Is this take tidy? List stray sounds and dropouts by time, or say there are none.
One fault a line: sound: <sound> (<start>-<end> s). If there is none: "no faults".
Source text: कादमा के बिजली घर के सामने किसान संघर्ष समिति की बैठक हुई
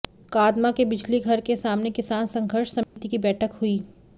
sound: dropout (2.8-3.0 s)